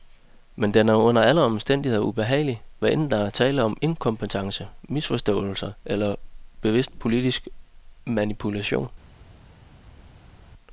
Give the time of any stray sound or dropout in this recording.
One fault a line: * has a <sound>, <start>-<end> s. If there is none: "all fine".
all fine